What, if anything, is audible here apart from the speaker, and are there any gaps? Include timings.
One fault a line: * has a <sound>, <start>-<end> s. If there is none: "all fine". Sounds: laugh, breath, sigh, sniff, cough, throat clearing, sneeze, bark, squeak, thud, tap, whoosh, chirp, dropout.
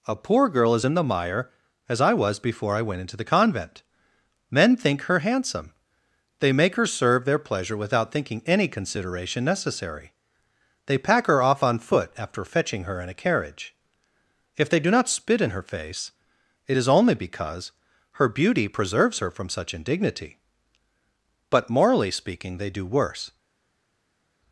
all fine